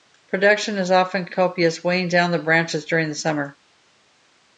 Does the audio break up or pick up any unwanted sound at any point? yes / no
no